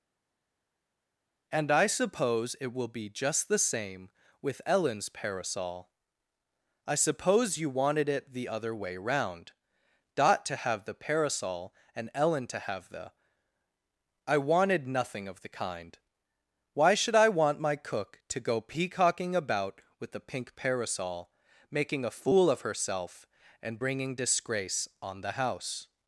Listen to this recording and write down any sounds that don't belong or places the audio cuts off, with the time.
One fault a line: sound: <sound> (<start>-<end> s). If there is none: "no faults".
no faults